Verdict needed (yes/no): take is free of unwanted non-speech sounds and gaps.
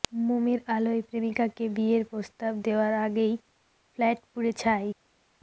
yes